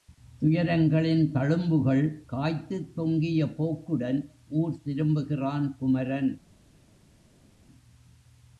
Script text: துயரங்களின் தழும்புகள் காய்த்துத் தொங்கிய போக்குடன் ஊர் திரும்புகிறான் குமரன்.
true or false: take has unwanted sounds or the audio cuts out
false